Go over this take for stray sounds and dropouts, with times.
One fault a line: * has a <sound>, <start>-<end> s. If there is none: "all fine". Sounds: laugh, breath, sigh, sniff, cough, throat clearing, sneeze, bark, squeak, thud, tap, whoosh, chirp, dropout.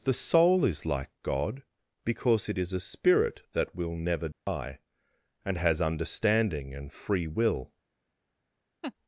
* has a dropout, 4.3-4.5 s
* has a laugh, 8.8-8.9 s